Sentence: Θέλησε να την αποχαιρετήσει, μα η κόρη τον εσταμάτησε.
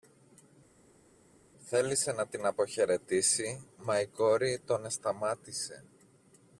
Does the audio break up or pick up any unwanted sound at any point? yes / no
no